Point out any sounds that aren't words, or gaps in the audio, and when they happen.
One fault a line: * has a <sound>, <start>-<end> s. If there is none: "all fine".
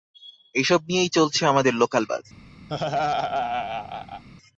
* has a laugh, 2.7-4.2 s